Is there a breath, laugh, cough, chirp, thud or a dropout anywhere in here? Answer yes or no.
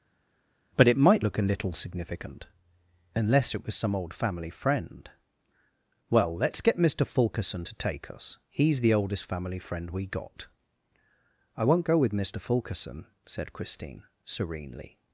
no